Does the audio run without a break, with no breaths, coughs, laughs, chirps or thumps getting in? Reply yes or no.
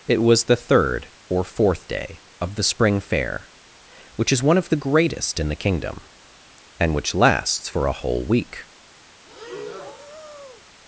no